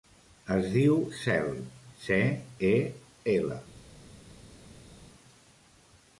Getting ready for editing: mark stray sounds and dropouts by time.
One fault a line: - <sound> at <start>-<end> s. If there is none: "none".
none